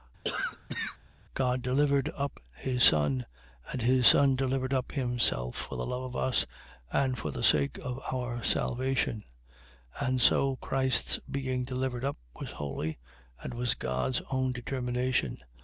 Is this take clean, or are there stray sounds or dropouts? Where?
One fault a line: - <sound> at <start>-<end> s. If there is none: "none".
- cough at 0.2-1.0 s